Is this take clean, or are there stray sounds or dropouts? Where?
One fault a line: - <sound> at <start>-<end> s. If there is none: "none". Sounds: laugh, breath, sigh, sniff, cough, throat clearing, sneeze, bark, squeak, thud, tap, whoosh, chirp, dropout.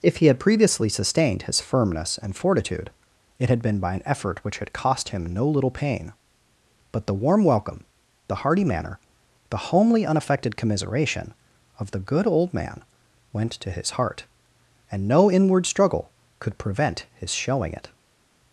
none